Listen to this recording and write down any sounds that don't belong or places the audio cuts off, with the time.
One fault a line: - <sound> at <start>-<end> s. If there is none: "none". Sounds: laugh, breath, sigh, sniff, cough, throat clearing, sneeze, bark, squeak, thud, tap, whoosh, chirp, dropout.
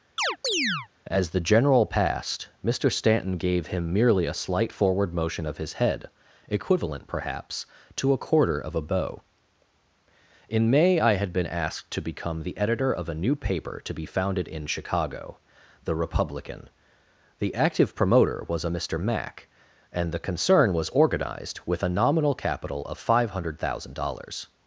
- chirp at 0.2-0.9 s